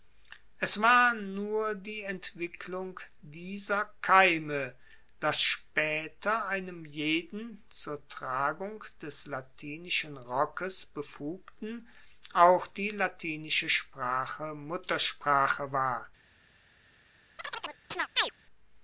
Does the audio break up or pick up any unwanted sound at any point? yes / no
yes